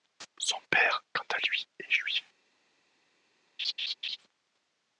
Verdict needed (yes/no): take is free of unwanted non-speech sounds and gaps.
no